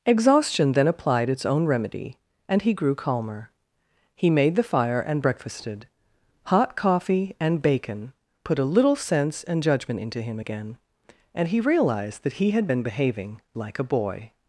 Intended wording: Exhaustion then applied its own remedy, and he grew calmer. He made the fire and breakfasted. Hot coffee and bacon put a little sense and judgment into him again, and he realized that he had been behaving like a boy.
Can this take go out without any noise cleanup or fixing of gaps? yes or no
yes